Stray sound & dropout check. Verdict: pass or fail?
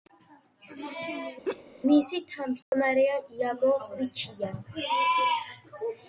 fail